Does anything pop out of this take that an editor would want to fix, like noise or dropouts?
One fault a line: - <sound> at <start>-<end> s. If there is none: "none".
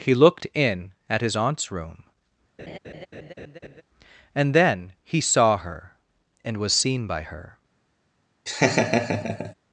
- laugh at 2.6-3.8 s
- laugh at 8.5-9.5 s